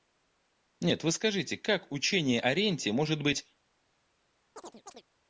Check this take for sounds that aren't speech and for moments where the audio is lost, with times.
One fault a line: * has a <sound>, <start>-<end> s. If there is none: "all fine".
* has a chirp, 4.6-5.0 s